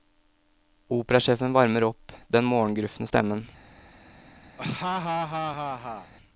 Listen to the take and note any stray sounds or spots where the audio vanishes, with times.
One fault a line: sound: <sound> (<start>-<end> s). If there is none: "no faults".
sound: laugh (4.6-6.1 s)